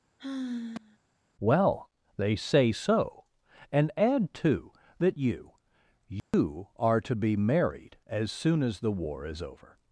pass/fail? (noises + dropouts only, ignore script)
fail